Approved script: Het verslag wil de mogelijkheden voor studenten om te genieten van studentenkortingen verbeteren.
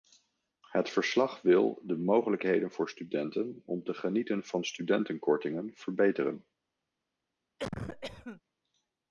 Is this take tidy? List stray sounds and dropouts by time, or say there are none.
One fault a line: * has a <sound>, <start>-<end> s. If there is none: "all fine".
* has a cough, 7.6-8.4 s